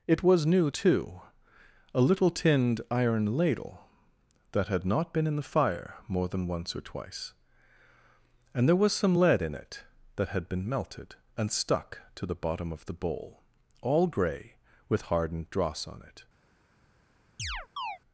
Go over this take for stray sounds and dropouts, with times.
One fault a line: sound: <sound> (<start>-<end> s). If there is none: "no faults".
sound: chirp (17.4-18.0 s)